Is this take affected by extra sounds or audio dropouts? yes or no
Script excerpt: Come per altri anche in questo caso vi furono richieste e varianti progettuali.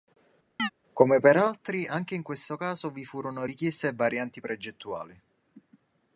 yes